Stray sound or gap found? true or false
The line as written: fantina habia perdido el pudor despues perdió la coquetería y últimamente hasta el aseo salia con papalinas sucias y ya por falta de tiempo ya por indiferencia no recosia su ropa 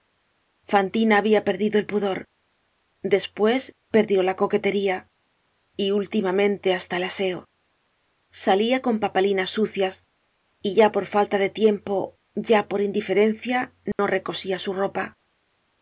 true